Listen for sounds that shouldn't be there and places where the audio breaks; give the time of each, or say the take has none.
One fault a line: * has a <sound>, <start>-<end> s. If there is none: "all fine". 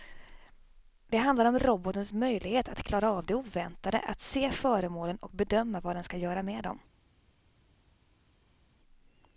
all fine